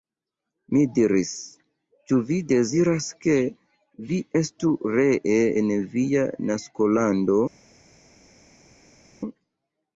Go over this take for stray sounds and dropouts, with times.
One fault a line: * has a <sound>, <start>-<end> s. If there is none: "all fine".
all fine